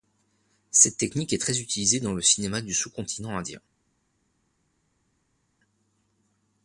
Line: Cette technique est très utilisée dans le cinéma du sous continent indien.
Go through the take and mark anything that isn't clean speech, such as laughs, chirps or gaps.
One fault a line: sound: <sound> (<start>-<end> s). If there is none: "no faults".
no faults